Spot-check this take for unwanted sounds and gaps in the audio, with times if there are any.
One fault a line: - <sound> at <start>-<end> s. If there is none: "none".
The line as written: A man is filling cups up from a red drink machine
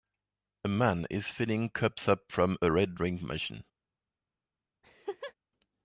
- laugh at 4.8-5.3 s